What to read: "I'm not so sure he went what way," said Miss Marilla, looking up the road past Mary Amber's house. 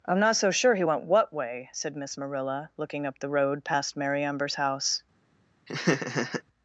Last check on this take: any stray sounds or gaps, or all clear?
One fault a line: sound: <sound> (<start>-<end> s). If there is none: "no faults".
sound: laugh (5.7-6.4 s)